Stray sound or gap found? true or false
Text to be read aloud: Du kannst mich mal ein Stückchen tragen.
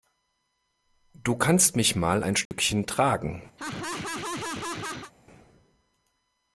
true